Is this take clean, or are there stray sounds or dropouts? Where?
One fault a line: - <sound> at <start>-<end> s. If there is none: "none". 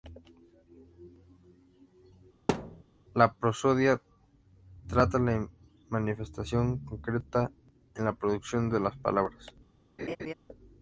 - thud at 2.5-2.8 s
- laugh at 10.0-10.3 s